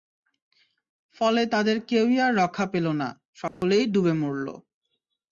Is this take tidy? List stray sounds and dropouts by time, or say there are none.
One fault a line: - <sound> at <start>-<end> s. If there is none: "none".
- dropout at 3.5-3.6 s